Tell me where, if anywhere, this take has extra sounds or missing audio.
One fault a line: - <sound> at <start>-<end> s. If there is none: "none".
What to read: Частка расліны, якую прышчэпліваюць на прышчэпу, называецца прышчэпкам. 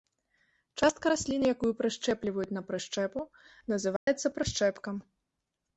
- dropout at 4.0-4.1 s